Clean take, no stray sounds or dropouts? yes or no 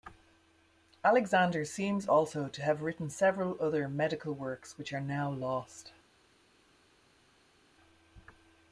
yes